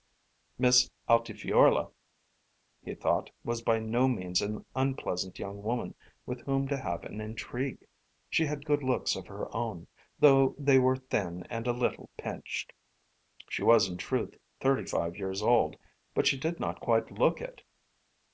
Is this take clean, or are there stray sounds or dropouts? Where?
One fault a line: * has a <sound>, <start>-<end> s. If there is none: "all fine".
all fine